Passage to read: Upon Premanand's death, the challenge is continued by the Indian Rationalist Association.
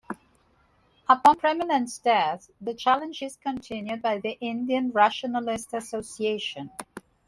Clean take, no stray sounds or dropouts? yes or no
yes